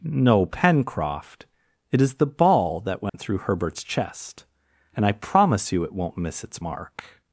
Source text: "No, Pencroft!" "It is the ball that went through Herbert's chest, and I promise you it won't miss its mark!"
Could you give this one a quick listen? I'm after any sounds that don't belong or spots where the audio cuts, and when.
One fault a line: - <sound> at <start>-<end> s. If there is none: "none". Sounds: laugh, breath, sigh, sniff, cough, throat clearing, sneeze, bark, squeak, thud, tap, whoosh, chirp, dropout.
- dropout at 3.1-3.1 s